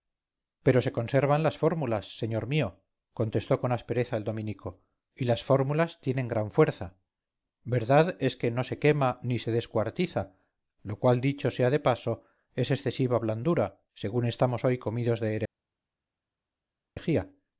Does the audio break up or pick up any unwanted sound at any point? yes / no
no